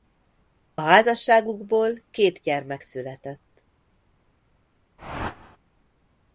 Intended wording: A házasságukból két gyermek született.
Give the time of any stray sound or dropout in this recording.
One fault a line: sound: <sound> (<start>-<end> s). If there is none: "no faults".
sound: whoosh (5.0-5.6 s)